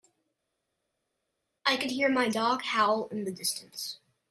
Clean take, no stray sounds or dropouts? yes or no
yes